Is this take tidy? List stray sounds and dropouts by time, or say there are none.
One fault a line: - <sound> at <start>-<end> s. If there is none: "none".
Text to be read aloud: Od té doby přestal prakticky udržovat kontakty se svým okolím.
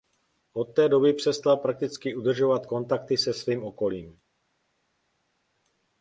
none